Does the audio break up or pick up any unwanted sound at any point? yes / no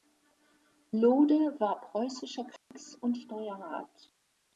yes